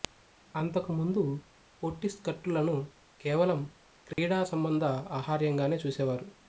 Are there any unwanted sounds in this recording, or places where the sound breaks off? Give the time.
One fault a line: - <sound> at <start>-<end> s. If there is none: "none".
- dropout at 4.1-4.2 s